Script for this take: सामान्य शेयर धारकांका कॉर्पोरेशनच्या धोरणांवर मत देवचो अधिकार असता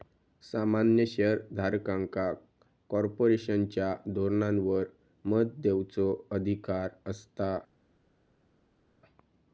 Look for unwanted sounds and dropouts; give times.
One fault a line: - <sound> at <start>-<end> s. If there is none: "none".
none